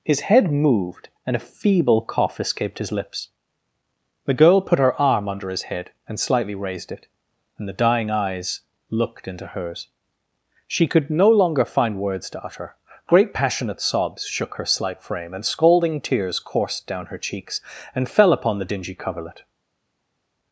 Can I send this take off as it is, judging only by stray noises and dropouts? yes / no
yes